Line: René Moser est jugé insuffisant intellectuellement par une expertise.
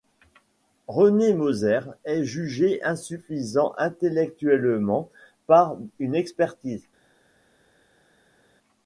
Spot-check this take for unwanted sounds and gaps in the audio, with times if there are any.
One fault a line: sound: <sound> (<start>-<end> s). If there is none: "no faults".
no faults